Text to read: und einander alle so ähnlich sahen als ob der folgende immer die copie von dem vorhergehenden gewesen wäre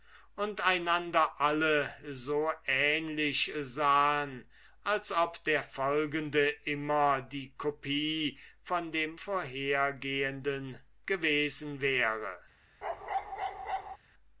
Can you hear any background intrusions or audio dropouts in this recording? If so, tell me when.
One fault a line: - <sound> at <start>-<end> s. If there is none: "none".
- bark at 12.8-14.0 s